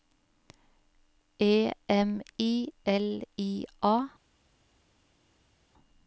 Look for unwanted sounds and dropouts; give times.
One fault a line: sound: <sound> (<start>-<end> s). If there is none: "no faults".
no faults